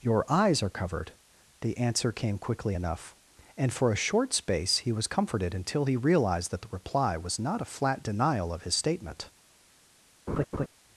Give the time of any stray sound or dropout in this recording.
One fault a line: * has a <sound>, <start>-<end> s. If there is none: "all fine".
* has a laugh, 10.3-10.7 s